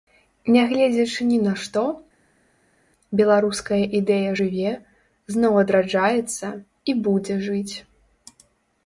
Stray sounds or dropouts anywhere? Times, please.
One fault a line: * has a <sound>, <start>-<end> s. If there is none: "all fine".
all fine